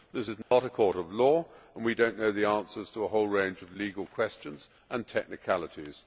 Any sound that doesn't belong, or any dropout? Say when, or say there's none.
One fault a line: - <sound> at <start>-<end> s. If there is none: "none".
- dropout at 0.4-0.5 s